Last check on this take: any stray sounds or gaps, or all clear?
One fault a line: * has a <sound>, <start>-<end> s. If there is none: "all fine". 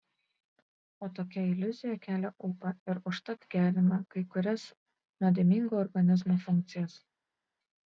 all fine